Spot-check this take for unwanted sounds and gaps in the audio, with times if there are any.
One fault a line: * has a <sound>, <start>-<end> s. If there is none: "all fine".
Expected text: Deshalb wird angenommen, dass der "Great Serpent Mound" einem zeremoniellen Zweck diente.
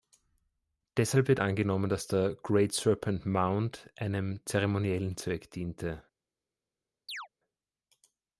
* has a chirp, 7.1-7.3 s